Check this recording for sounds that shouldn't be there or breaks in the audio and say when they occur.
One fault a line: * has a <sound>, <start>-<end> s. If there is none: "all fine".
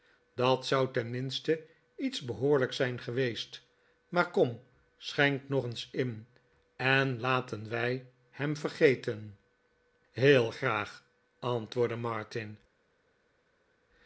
all fine